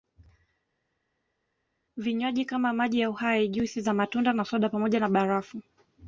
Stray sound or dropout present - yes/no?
no